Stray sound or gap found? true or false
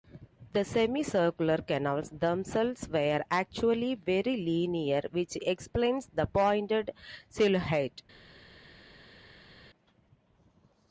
false